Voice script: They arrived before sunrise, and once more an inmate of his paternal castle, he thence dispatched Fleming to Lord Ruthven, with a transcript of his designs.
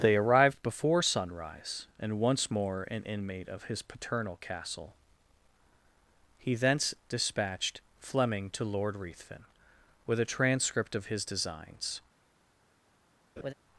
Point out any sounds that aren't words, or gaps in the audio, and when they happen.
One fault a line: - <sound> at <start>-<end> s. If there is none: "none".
- laugh at 13.4-13.5 s